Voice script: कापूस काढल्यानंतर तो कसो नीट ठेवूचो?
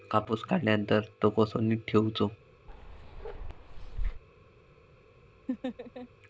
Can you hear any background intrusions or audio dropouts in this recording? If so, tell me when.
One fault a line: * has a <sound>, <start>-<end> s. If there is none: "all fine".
* has a bark, 2.7-4.2 s
* has a laugh, 5.5-6.1 s